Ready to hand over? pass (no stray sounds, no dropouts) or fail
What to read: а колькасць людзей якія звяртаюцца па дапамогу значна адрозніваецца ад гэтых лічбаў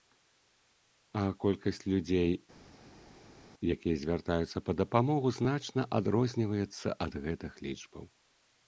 pass